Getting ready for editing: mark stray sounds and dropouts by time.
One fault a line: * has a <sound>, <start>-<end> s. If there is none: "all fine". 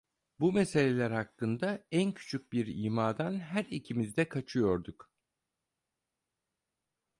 all fine